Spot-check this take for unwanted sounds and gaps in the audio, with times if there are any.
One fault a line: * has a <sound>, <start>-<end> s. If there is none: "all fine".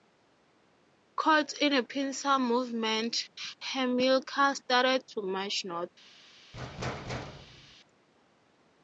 * has a thud, 6.5-7.8 s